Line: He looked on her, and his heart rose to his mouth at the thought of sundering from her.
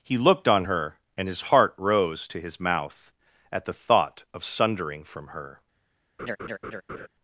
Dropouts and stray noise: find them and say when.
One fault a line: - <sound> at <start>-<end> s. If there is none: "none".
- laugh at 6.2-7.1 s